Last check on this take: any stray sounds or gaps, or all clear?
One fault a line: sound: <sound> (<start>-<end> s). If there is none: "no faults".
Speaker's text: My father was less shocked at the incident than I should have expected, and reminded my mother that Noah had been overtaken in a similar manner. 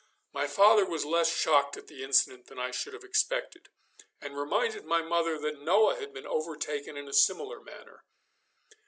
no faults